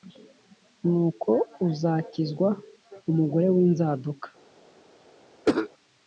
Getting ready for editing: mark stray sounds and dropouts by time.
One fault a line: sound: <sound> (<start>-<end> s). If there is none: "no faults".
sound: cough (5.4-5.7 s)